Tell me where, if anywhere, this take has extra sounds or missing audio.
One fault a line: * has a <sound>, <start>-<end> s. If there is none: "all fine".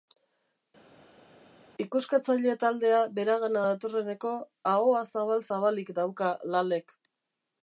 all fine